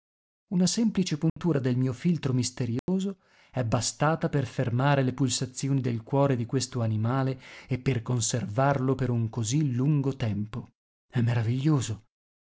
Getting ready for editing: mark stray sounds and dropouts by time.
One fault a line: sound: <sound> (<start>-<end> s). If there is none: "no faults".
sound: dropout (1.3-1.4 s)
sound: dropout (2.8-2.9 s)